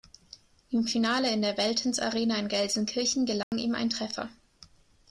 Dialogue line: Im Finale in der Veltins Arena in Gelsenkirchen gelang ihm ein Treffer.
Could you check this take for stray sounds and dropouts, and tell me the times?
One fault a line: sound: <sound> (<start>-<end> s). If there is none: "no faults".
sound: dropout (3.4-3.5 s)